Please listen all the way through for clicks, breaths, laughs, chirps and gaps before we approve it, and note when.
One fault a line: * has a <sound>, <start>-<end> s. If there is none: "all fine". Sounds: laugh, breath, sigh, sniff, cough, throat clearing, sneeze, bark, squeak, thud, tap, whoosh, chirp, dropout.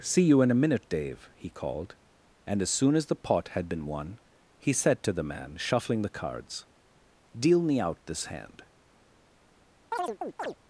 * has a chirp, 9.9-10.6 s